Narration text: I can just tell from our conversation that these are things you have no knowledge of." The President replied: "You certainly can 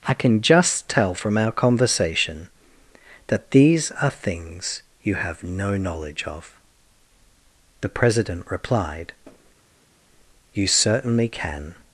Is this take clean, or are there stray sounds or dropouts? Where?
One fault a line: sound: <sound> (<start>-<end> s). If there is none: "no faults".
no faults